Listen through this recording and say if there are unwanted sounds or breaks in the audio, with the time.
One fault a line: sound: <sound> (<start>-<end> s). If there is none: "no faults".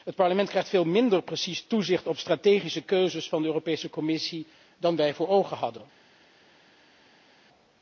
no faults